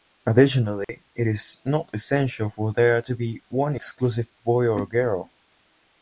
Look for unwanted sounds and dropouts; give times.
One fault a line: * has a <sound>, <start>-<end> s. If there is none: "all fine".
* has a dropout, 0.8-0.9 s